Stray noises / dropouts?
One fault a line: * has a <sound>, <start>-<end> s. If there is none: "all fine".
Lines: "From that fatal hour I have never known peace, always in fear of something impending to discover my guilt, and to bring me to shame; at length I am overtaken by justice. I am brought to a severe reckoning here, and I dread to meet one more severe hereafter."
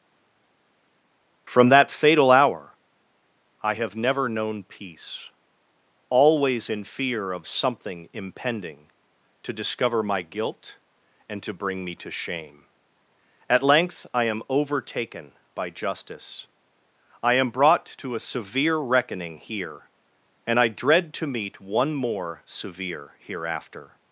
all fine